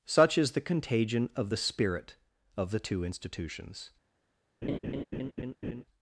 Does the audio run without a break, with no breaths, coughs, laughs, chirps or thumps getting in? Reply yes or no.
no